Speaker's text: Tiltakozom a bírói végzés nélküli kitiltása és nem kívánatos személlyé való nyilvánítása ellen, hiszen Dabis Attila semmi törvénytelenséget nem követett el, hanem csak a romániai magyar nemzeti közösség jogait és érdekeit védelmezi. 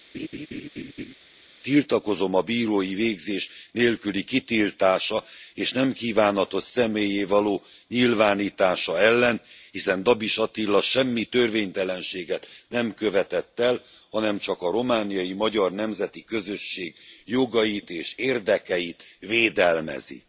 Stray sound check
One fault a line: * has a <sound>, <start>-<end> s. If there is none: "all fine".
* has a laugh, 0.1-1.1 s